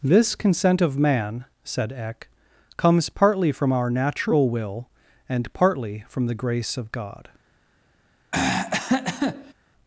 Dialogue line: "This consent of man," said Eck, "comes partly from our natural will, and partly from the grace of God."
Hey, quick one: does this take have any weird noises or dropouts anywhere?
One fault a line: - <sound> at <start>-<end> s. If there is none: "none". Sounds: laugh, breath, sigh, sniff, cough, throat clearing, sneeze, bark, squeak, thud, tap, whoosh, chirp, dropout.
- throat clearing at 8.3-9.5 s